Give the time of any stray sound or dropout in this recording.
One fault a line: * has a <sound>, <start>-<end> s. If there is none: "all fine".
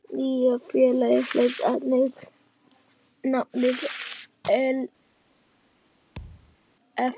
* has a thud, 6.2-6.6 s